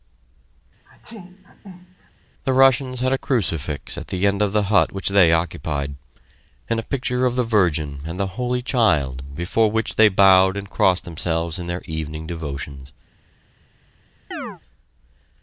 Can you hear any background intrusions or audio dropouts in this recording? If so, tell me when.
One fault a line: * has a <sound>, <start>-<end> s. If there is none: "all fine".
* has a sneeze, 0.9-2.1 s
* has a chirp, 14.3-14.6 s